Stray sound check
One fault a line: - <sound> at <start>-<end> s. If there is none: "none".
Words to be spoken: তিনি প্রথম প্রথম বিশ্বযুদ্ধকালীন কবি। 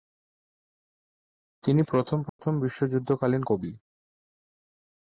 - dropout at 2.3-2.4 s